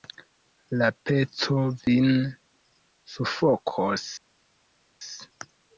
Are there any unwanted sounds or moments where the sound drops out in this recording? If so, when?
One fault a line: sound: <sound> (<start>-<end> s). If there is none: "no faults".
no faults